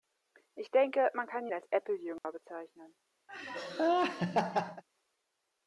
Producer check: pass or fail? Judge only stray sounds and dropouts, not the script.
fail